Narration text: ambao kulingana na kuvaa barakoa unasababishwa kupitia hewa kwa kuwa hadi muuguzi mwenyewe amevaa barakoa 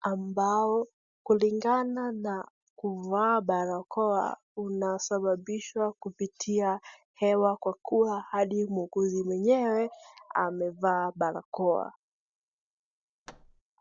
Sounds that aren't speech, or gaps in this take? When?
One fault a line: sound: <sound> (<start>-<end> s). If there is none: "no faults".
sound: thud (13.3-13.6 s)